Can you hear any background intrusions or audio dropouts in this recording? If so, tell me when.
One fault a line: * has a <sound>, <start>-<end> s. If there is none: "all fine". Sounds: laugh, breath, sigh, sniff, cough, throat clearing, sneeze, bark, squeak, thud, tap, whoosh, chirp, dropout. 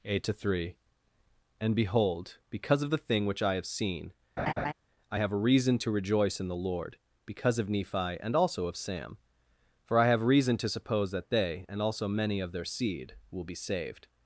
* has a laugh, 4.4-4.7 s